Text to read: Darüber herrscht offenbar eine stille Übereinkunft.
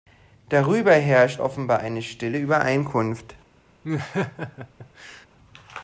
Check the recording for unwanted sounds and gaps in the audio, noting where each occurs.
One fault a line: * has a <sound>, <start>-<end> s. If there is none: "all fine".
* has a laugh, 3.8-5.3 s